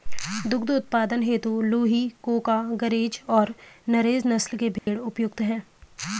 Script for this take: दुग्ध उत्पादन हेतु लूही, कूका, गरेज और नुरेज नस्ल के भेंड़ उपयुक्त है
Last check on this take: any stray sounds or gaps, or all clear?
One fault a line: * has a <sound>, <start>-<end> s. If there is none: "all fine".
* has a dropout, 4.8-4.9 s